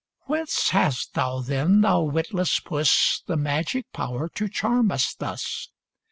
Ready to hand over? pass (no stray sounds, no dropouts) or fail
pass